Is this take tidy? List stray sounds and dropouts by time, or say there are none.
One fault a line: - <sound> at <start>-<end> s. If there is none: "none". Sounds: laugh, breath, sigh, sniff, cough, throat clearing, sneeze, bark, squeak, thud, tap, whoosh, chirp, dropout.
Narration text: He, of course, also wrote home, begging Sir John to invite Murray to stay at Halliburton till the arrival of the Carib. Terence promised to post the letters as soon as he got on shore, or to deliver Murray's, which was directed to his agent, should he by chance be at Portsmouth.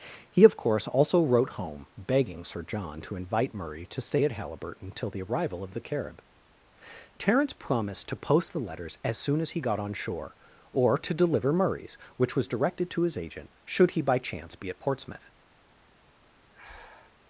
- breath at 16.5-17.2 s